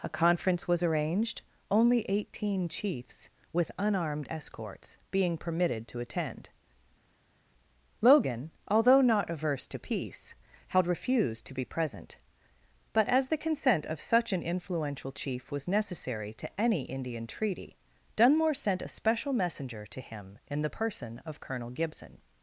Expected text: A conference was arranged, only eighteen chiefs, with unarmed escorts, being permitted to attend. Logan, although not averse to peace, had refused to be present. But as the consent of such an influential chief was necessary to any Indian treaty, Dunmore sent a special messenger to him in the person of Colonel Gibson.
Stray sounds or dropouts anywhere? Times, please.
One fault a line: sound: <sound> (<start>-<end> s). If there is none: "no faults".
no faults